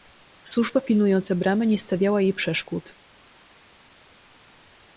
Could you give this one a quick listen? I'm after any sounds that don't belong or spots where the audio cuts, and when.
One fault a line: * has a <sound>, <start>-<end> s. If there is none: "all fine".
all fine